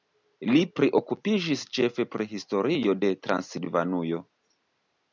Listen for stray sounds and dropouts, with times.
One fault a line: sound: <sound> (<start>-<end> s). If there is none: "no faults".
no faults